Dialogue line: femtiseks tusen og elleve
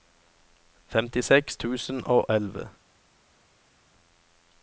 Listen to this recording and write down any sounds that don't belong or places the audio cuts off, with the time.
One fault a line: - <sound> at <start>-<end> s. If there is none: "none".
none